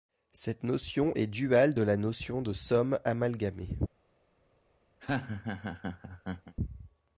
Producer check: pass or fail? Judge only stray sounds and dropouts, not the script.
fail